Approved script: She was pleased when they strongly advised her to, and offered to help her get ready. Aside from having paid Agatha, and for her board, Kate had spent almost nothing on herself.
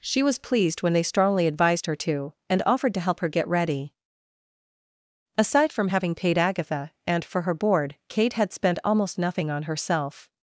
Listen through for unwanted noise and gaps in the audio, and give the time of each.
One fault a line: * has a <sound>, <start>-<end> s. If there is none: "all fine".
all fine